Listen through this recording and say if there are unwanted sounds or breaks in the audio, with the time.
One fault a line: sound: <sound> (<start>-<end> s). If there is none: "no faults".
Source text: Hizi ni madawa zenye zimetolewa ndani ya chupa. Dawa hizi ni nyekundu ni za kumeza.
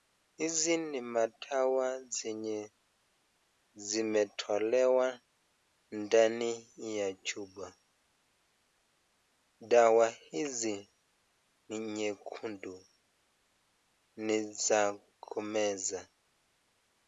no faults